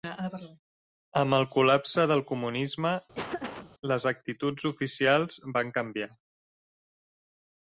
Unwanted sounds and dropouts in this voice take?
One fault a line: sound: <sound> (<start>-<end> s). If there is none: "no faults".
sound: laugh (3.1-3.7 s)